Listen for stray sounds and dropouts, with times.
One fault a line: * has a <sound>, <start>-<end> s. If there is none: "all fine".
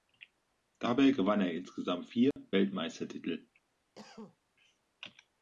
* has a dropout, 2.3-2.4 s
* has a cough, 3.9-4.4 s